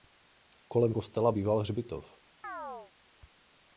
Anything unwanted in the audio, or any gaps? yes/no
yes